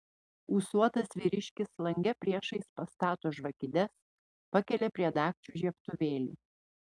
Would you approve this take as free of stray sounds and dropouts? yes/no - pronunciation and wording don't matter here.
yes